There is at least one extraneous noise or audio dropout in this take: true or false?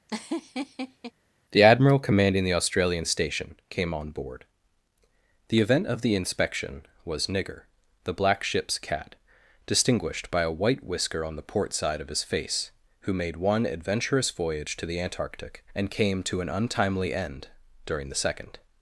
true